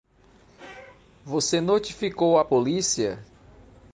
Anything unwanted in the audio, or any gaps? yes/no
no